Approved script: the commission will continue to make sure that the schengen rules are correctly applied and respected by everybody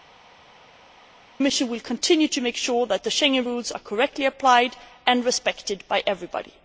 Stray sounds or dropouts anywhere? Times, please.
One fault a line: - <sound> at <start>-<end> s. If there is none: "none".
none